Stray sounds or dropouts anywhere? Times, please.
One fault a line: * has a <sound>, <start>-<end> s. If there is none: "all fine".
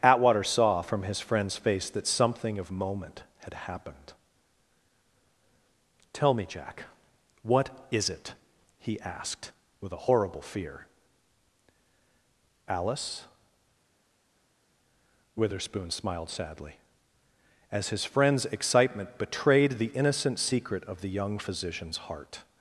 all fine